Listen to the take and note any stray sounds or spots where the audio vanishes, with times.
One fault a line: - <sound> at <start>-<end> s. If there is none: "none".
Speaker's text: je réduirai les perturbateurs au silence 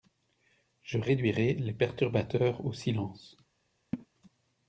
- laugh at 3.9-4.1 s